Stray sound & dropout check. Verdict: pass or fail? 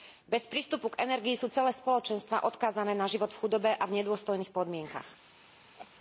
fail